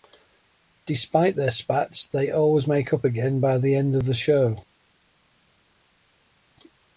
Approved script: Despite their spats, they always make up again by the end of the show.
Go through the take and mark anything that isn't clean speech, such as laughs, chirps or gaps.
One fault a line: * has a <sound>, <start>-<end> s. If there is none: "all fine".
all fine